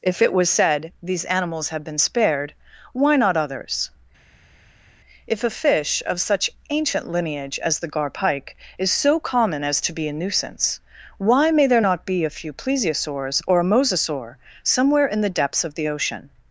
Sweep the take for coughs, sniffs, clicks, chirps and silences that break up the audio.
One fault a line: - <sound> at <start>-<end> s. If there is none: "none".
none